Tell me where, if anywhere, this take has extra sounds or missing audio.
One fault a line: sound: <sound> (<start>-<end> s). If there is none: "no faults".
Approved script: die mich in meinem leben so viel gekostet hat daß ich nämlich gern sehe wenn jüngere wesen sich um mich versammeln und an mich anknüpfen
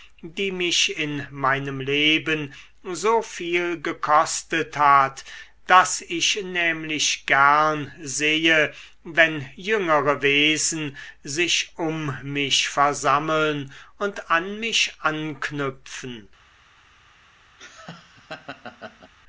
sound: laugh (17.6-19.1 s)